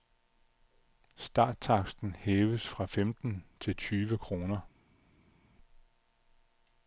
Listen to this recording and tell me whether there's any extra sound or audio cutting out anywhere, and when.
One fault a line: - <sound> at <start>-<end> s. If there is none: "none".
none